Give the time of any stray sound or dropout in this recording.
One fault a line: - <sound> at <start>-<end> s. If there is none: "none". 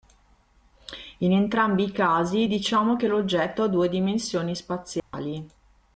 - dropout at 5.0-5.1 s